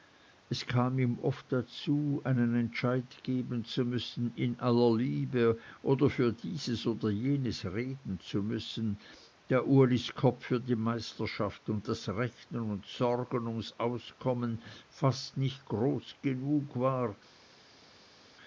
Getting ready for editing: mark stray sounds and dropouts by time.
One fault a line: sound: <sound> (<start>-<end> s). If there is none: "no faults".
no faults